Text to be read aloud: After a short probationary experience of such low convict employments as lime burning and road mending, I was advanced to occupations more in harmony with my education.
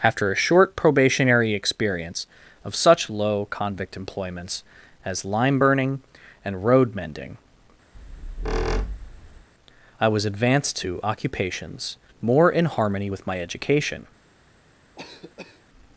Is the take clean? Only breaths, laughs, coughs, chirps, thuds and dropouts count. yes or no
no